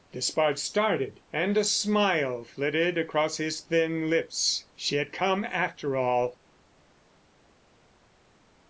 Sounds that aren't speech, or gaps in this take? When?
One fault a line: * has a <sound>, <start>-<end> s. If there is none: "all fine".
all fine